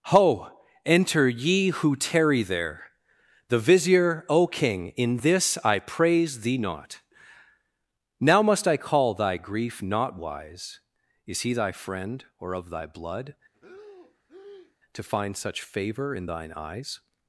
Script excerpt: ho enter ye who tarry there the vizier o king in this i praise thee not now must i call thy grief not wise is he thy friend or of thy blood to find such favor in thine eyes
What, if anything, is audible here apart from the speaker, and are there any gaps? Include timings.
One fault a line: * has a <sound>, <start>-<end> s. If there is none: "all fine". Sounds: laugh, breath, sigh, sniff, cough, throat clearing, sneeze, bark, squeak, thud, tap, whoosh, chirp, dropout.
* has a breath, 13.5-14.8 s